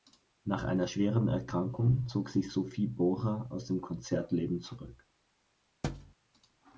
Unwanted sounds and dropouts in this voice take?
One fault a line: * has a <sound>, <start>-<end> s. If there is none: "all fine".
* has a thud, 5.8-6.1 s